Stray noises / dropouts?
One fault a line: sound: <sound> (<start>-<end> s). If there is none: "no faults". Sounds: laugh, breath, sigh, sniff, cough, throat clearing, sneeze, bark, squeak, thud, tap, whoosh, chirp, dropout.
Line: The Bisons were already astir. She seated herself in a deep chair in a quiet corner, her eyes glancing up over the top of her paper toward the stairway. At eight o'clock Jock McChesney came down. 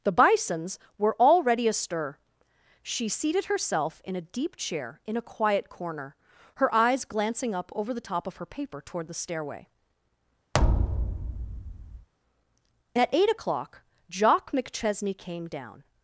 sound: thud (10.5-12.1 s)